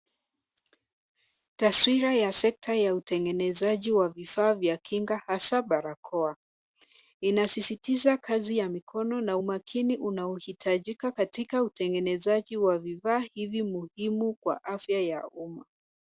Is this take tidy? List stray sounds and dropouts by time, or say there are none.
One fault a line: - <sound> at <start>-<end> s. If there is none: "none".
none